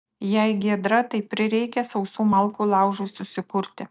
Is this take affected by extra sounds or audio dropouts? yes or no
no